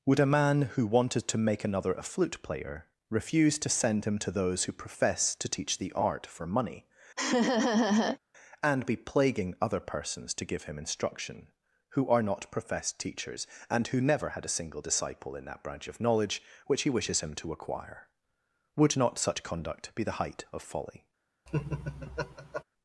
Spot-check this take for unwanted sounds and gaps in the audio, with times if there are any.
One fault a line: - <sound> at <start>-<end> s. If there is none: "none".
- laugh at 7.2-8.2 s
- laugh at 21.5-22.6 s